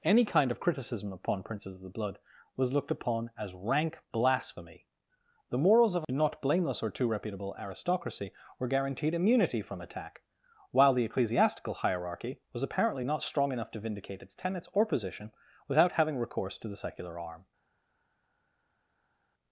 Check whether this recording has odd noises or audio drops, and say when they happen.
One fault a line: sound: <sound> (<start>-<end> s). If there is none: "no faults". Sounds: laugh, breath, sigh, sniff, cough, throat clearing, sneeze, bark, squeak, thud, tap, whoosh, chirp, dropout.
no faults